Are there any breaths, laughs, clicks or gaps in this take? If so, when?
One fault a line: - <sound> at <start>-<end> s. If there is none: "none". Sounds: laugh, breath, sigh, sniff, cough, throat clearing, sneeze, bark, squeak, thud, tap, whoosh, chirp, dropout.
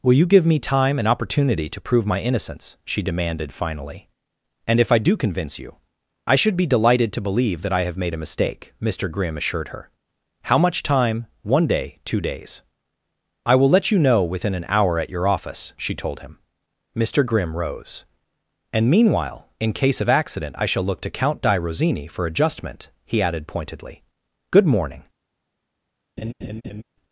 - laugh at 26.2-26.8 s